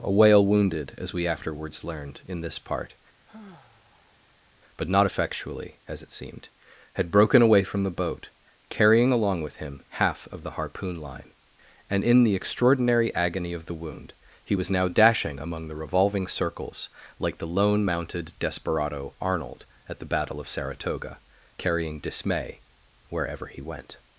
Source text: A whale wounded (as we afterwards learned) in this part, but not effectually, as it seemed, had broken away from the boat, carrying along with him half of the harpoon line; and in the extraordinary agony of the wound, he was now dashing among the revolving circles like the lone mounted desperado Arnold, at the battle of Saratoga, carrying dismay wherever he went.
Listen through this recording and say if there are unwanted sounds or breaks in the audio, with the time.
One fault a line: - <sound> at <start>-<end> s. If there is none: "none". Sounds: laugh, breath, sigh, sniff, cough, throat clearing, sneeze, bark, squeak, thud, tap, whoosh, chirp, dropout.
- sigh at 3.3-4.5 s